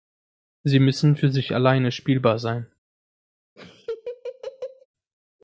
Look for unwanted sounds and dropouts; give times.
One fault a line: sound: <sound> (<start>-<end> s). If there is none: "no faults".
sound: laugh (3.6-4.9 s)